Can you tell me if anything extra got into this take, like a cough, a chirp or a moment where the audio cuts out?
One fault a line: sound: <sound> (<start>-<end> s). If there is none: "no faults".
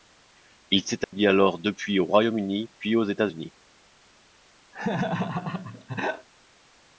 sound: dropout (1.0-1.1 s)
sound: laugh (4.7-6.3 s)